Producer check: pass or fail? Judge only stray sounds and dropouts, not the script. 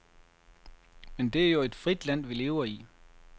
pass